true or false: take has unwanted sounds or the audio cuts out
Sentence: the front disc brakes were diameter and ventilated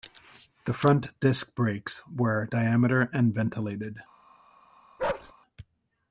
true